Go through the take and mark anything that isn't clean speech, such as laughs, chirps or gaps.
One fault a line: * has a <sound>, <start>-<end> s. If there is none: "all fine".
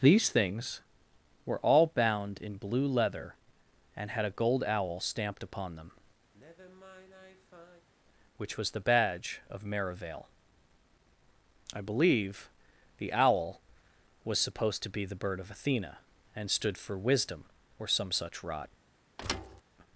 * has a sigh, 6.3-7.9 s
* has a thud, 19.2-19.6 s